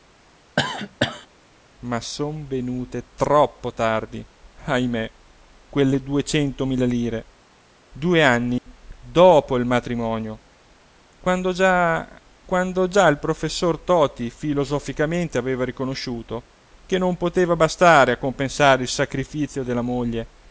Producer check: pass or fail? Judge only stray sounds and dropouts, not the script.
fail